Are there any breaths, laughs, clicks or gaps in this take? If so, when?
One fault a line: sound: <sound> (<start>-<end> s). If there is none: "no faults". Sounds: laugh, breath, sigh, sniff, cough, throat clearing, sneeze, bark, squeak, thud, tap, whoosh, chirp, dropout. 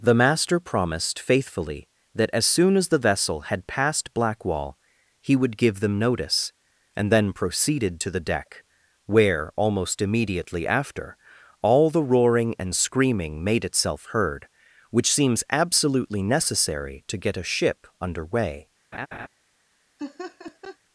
sound: laugh (18.9-19.3 s)
sound: laugh (20.0-20.8 s)